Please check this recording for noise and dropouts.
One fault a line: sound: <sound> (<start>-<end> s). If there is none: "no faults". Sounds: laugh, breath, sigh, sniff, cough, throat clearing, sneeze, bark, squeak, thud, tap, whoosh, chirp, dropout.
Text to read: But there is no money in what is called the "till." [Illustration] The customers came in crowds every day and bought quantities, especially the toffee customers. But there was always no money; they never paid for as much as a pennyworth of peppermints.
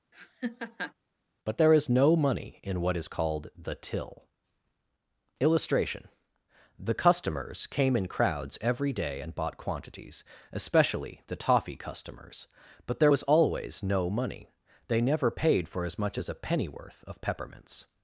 sound: laugh (0.1-0.9 s)